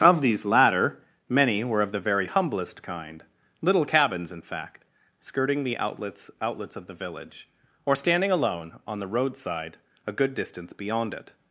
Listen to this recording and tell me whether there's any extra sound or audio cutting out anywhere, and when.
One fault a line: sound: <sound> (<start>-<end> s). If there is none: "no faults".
no faults